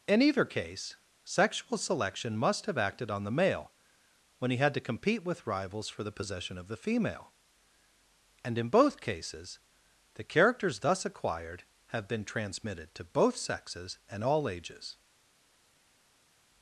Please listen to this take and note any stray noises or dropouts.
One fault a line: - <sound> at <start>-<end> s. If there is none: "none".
none